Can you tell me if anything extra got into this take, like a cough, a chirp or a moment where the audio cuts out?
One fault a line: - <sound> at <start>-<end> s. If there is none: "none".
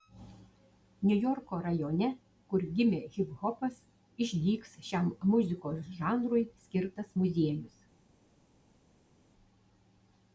none